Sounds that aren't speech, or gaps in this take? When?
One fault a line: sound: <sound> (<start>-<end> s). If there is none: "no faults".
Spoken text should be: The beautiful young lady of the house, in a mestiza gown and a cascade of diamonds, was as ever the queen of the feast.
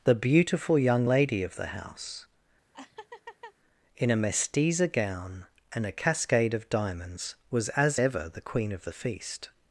sound: laugh (2.7-3.5 s)